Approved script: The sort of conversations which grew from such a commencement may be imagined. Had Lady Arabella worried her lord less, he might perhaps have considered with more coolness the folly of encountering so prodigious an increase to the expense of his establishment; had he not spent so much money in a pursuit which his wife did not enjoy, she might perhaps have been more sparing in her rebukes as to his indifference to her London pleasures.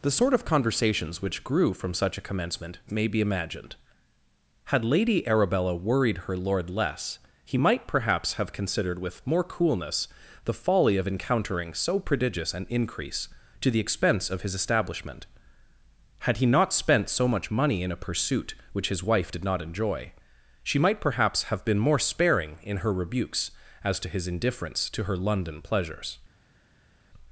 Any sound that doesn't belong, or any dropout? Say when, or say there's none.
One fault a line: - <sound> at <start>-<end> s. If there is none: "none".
none